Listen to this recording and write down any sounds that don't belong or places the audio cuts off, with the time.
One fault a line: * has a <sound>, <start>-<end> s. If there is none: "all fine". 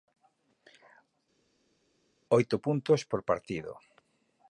all fine